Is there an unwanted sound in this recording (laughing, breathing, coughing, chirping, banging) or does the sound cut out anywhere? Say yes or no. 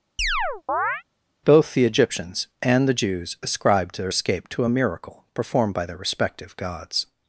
yes